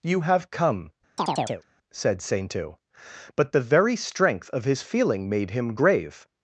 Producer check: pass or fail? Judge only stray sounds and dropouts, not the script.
fail